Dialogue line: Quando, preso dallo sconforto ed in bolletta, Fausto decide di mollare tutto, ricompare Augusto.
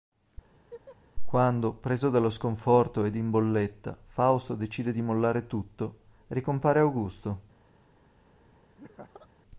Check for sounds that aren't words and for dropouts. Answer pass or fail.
fail